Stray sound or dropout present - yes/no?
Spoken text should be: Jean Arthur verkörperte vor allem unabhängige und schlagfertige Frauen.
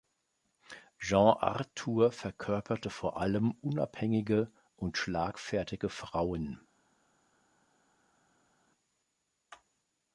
no